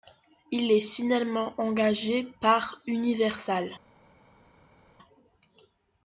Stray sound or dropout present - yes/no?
no